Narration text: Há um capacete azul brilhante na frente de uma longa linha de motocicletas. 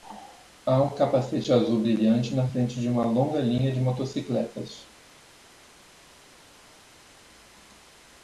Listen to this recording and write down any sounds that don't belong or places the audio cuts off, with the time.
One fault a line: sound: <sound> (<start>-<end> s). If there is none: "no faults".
no faults